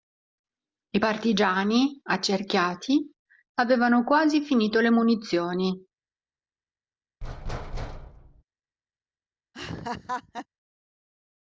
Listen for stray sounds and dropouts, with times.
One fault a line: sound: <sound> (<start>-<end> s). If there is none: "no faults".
sound: thud (7.2-8.4 s)
sound: laugh (9.5-10.5 s)